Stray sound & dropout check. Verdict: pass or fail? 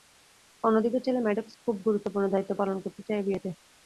pass